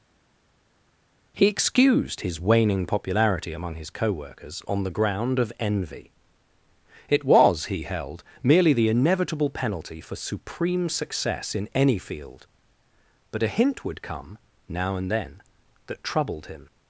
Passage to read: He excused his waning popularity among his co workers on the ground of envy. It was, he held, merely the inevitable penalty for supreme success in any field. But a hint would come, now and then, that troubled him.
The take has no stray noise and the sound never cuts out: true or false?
true